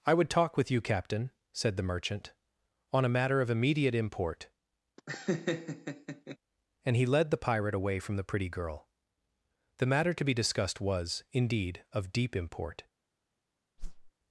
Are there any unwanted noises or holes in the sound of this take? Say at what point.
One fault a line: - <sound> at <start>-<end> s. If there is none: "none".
- laugh at 5.0-6.4 s
- whoosh at 13.8-14.1 s